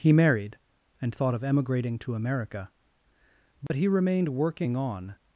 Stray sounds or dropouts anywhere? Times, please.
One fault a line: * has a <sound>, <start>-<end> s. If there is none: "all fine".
* has a dropout, 3.7-3.7 s